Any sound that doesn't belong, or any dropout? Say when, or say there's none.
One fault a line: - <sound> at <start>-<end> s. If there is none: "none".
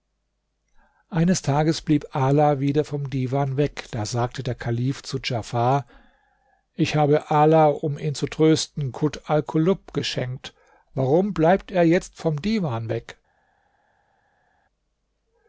none